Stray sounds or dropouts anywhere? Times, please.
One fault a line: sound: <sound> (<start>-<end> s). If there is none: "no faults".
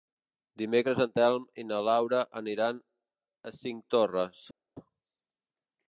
no faults